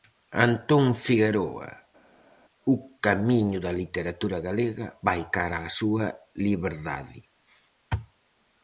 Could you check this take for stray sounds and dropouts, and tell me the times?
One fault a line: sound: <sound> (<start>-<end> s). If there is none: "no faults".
no faults